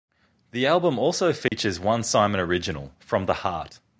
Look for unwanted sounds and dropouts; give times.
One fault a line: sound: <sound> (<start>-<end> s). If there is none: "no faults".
sound: dropout (1.5-1.5 s)